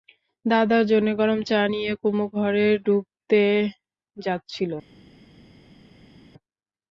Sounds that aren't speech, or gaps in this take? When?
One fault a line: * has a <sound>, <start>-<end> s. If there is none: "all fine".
all fine